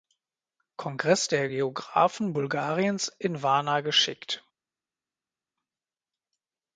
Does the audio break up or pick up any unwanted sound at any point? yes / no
no